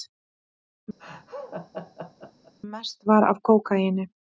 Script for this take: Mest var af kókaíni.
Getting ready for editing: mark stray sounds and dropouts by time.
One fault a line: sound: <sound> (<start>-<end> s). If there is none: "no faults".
sound: laugh (1.0-2.5 s)